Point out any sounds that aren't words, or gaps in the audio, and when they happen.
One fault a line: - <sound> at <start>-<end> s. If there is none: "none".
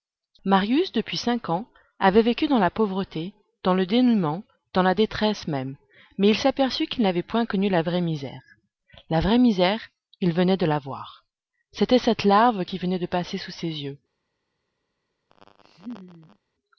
- laugh at 15.3-16.4 s